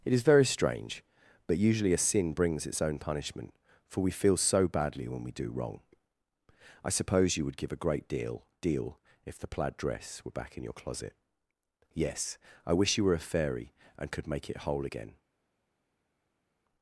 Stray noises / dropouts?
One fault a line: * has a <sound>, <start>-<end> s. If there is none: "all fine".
all fine